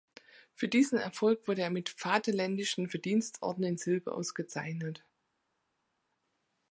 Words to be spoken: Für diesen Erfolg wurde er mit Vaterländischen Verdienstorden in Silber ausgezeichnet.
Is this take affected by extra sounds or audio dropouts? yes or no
no